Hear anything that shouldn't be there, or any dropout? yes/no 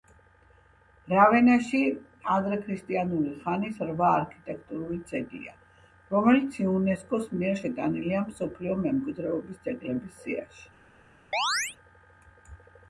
yes